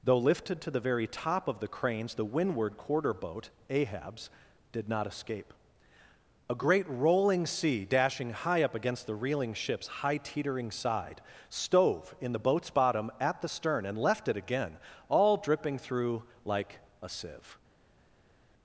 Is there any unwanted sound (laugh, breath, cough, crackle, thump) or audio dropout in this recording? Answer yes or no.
no